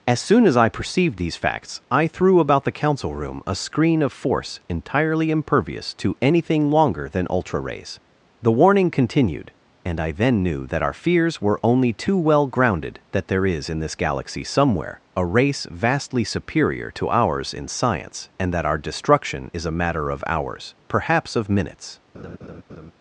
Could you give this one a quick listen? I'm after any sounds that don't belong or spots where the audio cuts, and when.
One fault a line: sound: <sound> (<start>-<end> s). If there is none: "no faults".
sound: laugh (22.1-22.9 s)